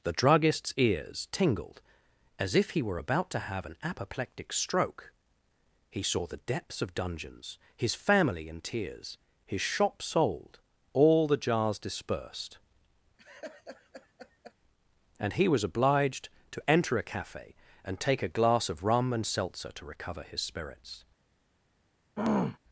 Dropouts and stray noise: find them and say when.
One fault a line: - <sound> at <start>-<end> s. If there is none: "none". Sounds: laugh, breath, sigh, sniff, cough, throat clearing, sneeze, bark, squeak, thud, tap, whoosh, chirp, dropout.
- laugh at 13.2-14.5 s
- throat clearing at 22.2-22.6 s